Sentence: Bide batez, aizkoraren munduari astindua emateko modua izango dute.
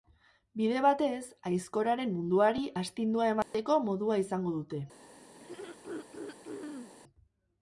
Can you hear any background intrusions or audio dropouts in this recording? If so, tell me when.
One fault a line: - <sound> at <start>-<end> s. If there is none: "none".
- dropout at 3.4-3.5 s
- throat clearing at 5.4-6.9 s